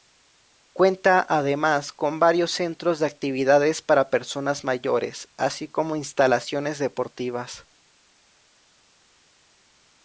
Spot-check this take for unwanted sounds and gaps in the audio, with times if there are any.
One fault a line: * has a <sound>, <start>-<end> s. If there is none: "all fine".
all fine